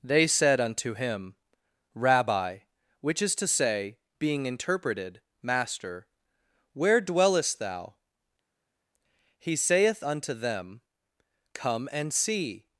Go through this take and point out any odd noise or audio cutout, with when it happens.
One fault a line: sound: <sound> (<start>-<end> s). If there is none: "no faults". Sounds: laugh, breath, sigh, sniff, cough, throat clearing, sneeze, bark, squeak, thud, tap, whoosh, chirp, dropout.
no faults